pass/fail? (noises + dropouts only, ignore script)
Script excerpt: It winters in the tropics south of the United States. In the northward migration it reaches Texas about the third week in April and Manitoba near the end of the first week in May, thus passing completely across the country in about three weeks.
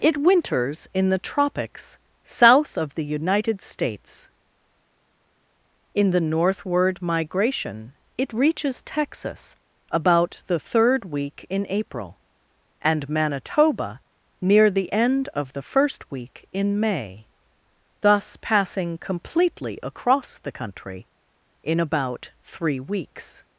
pass